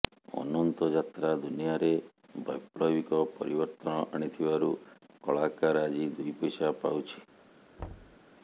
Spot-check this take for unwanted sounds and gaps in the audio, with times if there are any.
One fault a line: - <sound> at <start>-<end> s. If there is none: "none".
- thud at 7.8-8.2 s